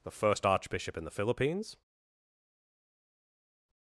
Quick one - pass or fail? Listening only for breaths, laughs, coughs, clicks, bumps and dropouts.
pass